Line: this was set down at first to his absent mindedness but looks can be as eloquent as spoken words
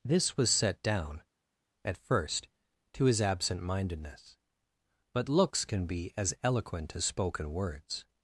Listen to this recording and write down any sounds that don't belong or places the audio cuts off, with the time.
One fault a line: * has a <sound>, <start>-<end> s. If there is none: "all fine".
all fine